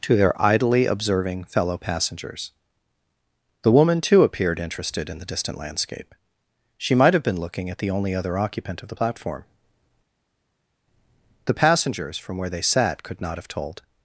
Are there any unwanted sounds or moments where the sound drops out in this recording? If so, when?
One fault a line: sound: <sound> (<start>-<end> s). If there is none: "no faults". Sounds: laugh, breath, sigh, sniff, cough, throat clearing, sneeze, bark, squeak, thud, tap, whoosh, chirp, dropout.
no faults